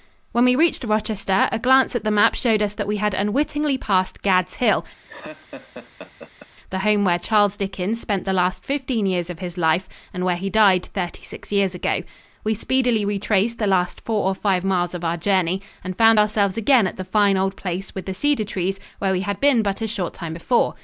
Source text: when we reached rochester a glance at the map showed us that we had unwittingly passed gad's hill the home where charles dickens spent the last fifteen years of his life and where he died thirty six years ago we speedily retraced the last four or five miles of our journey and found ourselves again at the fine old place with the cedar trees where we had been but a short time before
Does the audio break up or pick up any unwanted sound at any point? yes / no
yes